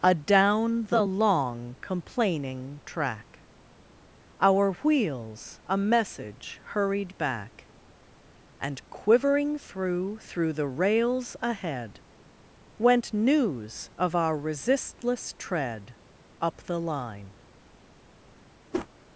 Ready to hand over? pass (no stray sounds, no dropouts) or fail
fail